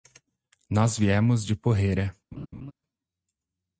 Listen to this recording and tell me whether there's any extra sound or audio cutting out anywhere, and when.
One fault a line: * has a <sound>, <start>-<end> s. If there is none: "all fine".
* has a laugh, 2.3-2.7 s